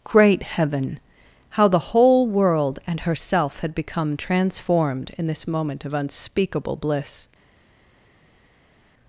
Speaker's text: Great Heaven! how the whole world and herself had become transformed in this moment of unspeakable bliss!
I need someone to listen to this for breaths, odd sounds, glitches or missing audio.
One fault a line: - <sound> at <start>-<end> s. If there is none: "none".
none